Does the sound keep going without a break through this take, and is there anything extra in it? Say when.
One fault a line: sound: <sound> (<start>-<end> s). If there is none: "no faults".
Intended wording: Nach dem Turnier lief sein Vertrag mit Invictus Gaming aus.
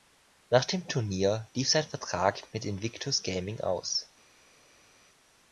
no faults